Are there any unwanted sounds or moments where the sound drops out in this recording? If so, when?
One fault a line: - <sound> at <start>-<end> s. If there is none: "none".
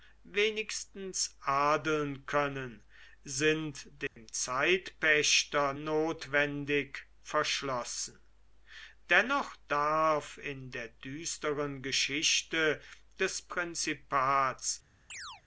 - dropout at 4.1-4.2 s
- chirp at 15.1-15.4 s